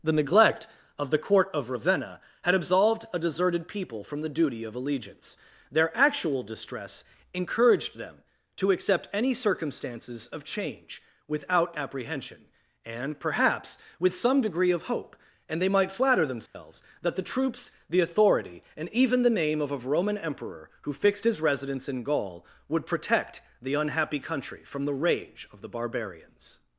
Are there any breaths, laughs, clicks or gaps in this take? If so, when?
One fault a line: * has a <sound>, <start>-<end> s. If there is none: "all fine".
* has a dropout, 16.5-16.5 s